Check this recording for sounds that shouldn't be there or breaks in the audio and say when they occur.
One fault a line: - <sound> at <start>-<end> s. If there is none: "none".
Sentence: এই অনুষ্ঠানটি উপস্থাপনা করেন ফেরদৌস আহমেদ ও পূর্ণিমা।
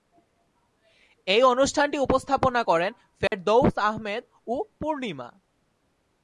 - dropout at 3.3-3.3 s